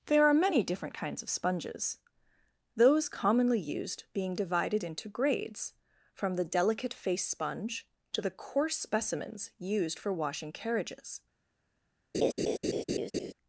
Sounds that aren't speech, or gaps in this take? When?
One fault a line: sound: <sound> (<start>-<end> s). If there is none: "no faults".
sound: laugh (12.1-13.3 s)